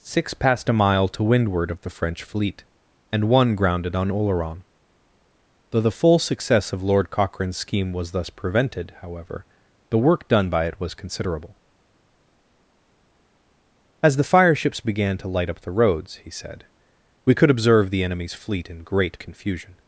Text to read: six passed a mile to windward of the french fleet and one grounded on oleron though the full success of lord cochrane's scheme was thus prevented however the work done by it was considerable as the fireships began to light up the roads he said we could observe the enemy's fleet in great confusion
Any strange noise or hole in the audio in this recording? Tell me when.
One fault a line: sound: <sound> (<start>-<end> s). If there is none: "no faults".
no faults